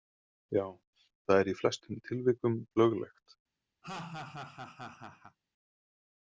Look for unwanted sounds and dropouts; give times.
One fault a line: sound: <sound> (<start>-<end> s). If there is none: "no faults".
sound: laugh (3.8-5.4 s)